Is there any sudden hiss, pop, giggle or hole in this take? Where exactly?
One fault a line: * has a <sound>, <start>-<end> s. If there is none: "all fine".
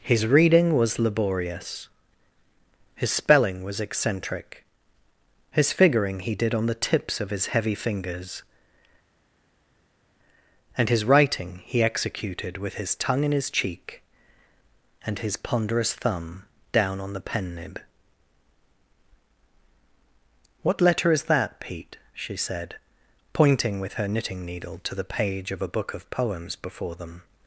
all fine